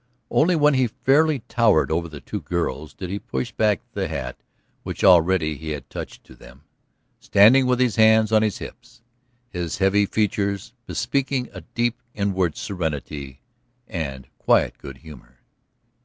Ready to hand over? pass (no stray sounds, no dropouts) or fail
pass